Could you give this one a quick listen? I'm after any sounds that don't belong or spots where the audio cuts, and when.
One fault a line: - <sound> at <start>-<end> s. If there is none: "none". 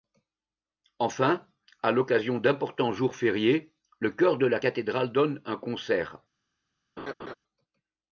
- laugh at 7.0-7.3 s